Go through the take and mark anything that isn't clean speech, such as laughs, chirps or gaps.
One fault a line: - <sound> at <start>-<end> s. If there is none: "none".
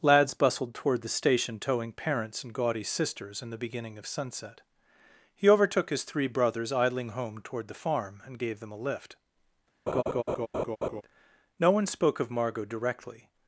- laugh at 9.9-11.0 s